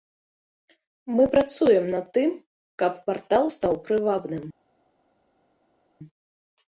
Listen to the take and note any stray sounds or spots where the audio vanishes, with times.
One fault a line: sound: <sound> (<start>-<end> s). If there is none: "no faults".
no faults